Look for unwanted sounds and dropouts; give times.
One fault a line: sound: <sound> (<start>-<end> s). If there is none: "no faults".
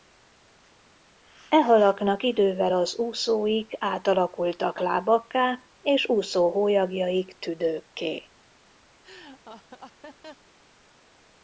sound: laugh (9.0-10.5 s)